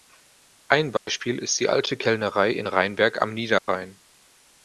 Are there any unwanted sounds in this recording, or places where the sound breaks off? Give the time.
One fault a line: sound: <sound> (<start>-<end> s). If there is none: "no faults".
sound: dropout (1.0-1.1 s)
sound: dropout (3.6-3.7 s)